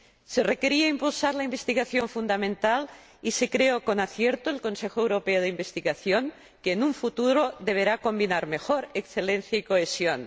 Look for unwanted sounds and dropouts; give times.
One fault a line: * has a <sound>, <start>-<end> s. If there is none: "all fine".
all fine